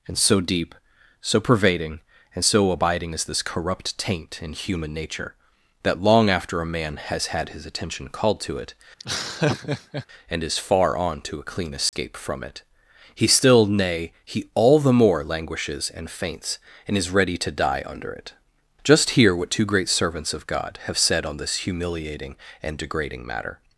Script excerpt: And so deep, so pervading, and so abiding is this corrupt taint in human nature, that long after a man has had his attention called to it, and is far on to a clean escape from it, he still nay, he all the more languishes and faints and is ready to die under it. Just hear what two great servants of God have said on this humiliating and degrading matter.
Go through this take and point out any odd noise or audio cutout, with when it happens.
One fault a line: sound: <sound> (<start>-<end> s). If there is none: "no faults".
sound: laugh (9.0-10.1 s)
sound: dropout (11.9-11.9 s)